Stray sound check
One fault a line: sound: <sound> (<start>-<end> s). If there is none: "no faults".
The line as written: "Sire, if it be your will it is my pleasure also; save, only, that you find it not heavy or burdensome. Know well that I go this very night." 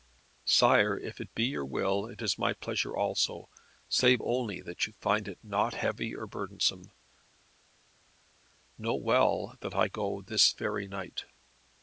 no faults